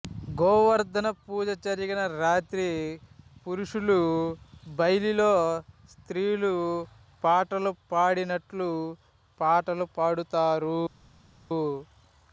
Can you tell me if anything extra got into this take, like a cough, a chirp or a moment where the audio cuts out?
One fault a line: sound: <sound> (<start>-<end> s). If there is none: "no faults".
no faults